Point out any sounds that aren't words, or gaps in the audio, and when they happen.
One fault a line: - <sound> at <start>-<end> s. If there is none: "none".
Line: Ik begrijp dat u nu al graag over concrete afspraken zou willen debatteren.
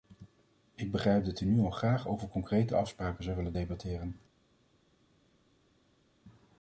none